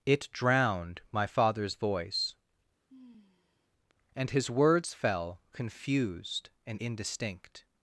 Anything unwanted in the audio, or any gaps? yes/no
yes